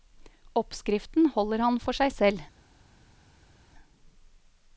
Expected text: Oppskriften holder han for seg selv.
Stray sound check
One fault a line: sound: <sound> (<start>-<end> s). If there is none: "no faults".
no faults